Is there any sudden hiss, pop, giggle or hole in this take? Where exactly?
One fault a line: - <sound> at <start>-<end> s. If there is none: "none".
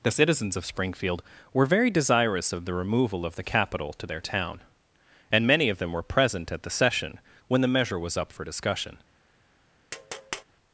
- tap at 9.9-10.4 s